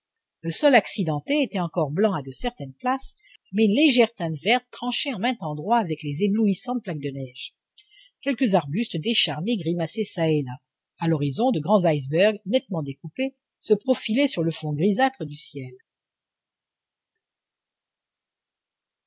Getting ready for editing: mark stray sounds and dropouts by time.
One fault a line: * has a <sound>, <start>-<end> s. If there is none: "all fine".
all fine